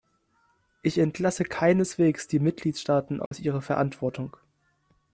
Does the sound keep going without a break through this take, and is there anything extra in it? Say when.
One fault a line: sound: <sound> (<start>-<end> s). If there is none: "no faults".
sound: dropout (3.3-3.3 s)